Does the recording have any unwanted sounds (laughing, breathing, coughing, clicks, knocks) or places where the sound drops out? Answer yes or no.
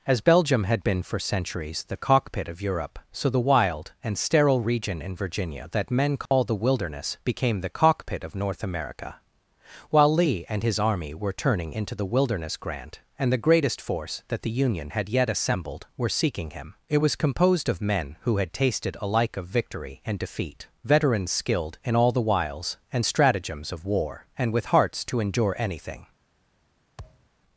yes